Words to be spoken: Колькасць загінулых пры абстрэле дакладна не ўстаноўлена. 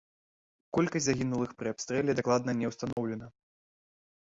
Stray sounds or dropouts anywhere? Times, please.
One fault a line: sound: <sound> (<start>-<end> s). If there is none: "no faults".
sound: dropout (2.9-3.0 s)